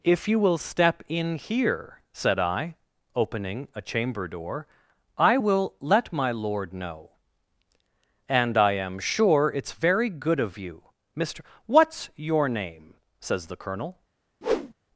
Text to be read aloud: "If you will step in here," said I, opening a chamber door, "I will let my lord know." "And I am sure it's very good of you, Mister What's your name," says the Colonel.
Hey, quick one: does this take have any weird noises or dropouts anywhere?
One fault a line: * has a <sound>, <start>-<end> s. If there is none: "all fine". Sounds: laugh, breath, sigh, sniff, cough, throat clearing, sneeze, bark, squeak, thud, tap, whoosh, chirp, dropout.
* has a whoosh, 14.4-14.7 s